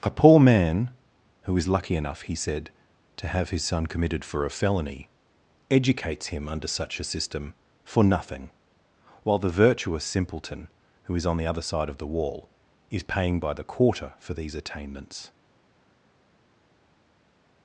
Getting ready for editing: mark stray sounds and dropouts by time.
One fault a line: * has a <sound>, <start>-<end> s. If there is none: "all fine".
all fine